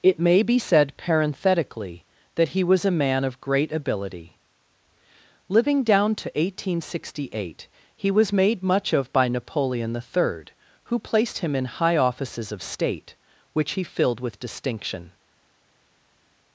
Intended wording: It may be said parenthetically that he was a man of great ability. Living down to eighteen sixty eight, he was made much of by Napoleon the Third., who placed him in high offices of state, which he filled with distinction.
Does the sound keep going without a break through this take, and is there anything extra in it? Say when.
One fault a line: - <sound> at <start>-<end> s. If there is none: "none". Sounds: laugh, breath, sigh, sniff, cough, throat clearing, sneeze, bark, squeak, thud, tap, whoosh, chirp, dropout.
none